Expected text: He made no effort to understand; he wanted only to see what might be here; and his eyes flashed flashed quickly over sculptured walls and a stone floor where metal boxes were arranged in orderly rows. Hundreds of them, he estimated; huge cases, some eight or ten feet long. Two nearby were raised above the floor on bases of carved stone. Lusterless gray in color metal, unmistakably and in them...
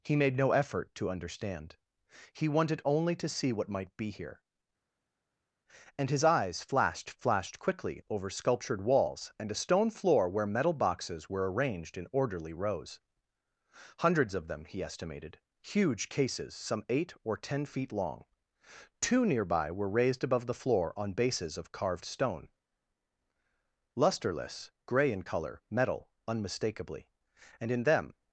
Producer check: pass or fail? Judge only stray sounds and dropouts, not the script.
pass